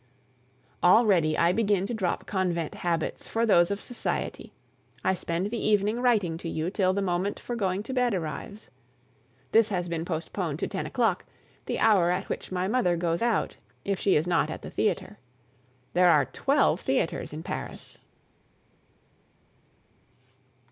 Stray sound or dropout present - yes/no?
no